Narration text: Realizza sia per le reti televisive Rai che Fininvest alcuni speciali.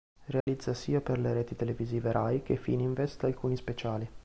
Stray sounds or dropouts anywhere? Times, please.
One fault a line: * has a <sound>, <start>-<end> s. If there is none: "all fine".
* has a dropout, 0.4-0.5 s